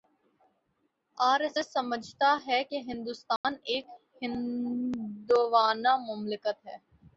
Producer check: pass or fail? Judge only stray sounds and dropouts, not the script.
fail